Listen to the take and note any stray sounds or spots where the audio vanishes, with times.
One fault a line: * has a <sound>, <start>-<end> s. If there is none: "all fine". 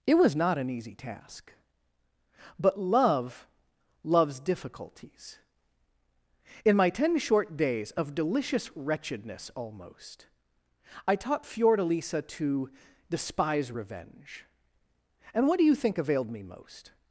all fine